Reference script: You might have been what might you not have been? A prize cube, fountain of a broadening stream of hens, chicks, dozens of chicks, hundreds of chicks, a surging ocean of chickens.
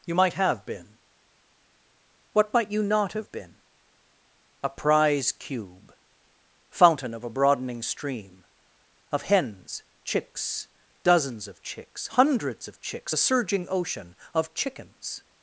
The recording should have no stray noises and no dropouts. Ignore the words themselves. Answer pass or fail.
pass